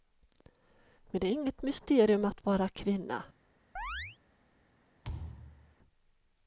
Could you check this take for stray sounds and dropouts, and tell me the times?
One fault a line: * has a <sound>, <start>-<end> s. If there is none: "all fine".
* has a chirp, 3.8-4.2 s
* has a thud, 5.0-5.7 s